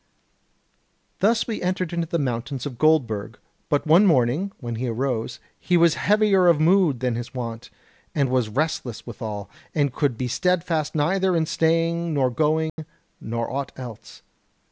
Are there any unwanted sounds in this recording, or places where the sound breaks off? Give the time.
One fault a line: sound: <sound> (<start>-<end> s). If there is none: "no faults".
sound: dropout (12.7-12.8 s)